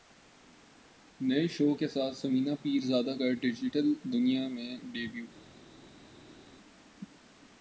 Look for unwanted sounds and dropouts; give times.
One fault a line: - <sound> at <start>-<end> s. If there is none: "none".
none